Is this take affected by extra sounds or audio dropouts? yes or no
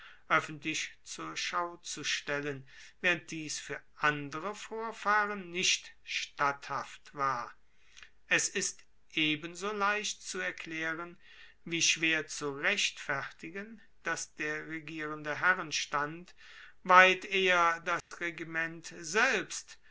yes